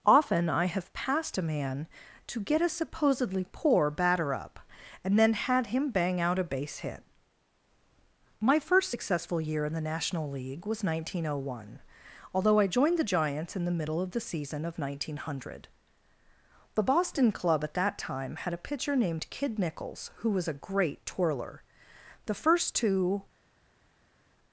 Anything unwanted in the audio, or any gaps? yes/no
no